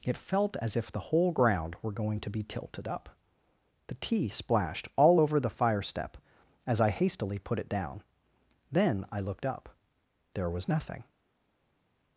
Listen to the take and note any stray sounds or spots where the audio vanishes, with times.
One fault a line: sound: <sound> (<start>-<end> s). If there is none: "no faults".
no faults